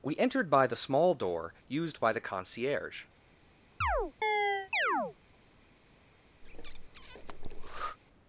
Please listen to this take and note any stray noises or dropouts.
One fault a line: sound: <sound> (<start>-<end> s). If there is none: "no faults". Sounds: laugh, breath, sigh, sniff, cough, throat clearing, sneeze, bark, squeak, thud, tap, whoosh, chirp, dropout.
sound: chirp (3.8-5.2 s)
sound: breath (6.4-8.0 s)